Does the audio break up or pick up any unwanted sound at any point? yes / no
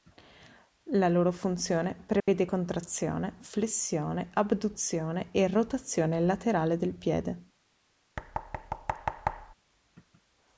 yes